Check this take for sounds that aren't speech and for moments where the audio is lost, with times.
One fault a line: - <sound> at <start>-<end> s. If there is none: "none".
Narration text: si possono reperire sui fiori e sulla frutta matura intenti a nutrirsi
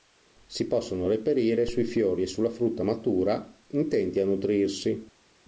none